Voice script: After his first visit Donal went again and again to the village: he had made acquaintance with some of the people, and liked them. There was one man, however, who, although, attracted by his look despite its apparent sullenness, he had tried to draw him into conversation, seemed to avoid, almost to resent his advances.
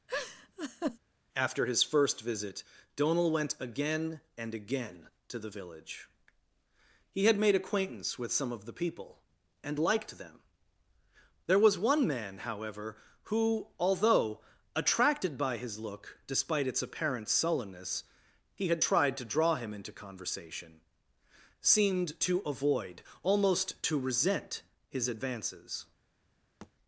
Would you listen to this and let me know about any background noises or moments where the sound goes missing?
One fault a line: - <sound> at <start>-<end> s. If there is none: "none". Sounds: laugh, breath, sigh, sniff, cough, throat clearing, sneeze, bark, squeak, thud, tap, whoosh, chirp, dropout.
- laugh at 0.1-1.0 s
- thud at 26.6-26.7 s